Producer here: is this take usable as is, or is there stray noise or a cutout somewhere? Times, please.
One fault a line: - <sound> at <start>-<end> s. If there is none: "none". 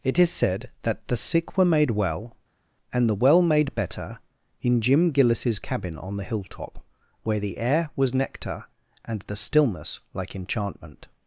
none